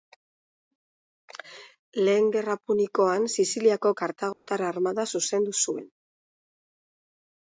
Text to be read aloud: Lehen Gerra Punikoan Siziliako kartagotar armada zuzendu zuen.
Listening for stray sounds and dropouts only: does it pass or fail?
fail